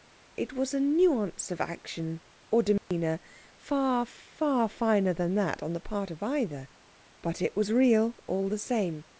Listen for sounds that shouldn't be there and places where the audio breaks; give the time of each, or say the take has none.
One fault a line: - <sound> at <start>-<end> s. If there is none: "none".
- dropout at 2.8-2.9 s